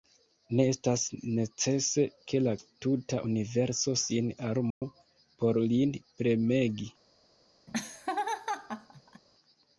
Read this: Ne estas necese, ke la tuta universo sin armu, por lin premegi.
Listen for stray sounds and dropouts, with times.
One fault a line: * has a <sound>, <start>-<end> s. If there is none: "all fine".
* has a dropout, 4.7-4.8 s
* has a laugh, 7.7-9.2 s